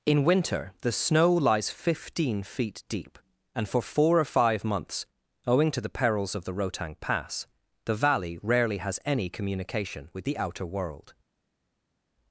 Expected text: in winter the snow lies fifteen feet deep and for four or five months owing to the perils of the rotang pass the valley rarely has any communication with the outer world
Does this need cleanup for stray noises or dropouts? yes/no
no